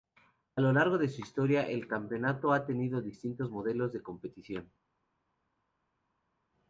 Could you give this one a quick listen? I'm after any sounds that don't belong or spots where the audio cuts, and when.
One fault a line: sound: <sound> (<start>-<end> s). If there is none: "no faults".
no faults